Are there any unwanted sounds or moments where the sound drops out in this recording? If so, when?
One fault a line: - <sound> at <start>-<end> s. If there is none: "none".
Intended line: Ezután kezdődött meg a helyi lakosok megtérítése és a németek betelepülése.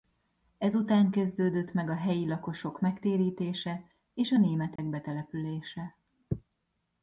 - dropout at 4.8-4.8 s